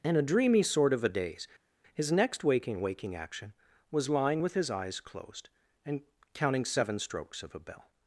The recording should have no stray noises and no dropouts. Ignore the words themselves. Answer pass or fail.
pass